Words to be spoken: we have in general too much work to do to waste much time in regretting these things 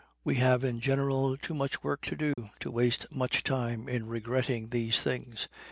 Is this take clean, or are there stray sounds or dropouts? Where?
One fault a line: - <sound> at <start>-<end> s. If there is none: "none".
- dropout at 2.3-2.4 s